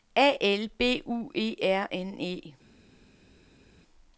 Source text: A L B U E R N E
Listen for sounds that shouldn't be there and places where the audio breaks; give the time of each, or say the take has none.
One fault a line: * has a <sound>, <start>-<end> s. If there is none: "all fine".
all fine